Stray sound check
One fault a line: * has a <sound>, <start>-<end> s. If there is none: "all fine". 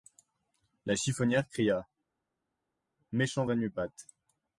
all fine